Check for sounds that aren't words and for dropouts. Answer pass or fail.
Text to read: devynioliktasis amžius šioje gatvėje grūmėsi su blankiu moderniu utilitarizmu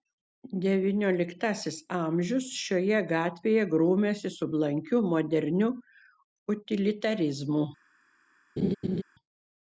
fail